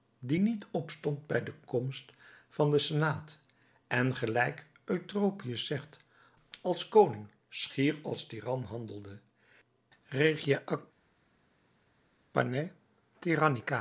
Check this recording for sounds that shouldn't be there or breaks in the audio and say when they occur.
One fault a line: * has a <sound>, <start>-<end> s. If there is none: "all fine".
all fine